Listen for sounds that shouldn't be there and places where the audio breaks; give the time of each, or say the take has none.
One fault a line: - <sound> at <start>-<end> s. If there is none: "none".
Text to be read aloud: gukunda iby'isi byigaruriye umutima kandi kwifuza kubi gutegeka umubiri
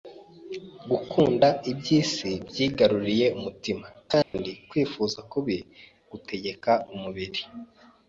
- dropout at 4.2-4.3 s